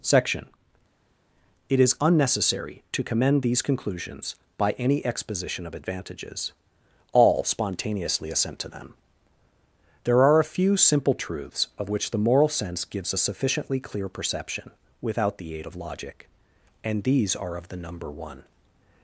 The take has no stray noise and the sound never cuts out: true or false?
true